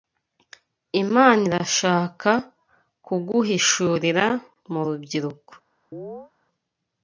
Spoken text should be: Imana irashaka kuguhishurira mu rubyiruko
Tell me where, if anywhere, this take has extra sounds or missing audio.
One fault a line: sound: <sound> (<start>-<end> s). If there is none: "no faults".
sound: chirp (5.9-6.3 s)